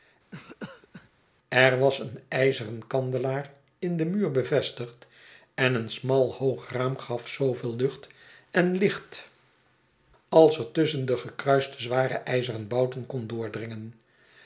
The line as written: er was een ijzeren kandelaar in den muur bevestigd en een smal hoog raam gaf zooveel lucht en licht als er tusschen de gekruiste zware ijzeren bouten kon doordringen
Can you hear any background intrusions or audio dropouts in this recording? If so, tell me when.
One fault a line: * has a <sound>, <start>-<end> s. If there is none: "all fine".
* has a cough, 0.3-1.1 s